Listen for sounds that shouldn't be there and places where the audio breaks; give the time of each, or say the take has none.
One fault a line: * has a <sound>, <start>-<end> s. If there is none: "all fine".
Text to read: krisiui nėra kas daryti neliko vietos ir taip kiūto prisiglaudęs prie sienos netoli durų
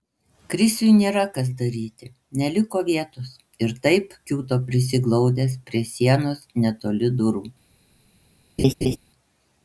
* has a laugh, 8.6-9.0 s